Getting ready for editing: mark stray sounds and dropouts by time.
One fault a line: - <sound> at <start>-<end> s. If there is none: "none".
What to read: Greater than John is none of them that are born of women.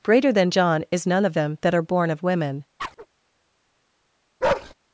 - chirp at 2.8-3.1 s
- bark at 4.4-4.7 s